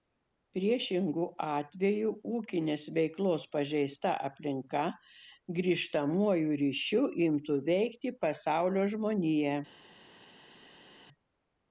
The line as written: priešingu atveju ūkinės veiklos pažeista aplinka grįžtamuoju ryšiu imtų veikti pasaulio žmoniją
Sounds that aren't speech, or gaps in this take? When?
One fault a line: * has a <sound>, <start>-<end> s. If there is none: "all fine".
all fine